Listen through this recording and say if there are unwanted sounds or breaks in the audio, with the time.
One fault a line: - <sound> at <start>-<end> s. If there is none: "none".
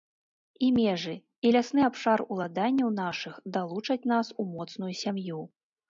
none